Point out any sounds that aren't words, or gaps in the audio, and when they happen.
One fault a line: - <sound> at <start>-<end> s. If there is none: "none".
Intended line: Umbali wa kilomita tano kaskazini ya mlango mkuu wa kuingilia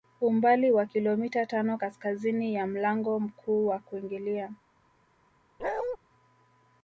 - bark at 5.6-6.0 s